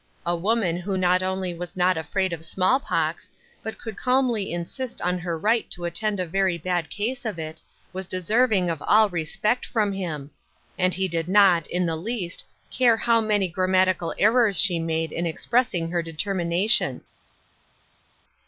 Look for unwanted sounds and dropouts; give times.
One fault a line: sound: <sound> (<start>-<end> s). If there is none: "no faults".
no faults